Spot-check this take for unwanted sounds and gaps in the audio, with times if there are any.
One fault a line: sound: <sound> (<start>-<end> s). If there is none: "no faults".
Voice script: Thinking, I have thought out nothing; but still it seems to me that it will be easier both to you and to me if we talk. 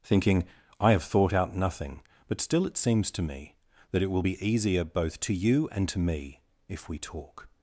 no faults